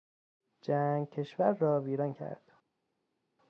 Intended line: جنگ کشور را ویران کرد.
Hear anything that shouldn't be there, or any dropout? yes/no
no